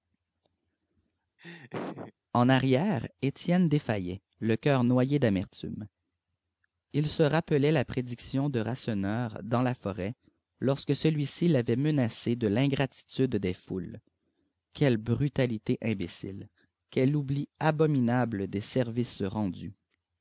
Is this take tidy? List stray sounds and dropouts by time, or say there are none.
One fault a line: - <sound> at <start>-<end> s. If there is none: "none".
- laugh at 1.4-2.1 s